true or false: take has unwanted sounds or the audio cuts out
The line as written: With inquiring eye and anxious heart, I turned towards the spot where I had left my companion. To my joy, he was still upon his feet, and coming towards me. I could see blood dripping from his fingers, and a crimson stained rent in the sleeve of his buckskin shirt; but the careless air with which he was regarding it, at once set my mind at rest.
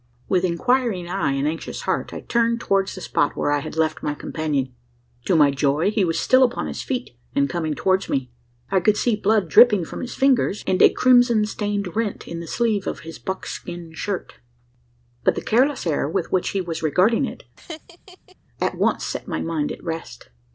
true